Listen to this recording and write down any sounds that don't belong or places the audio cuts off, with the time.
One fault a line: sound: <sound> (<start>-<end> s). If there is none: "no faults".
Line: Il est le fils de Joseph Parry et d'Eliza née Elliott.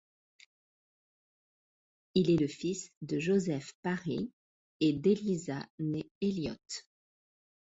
no faults